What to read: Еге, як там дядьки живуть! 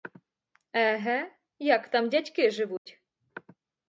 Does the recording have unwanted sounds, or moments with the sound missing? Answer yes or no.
yes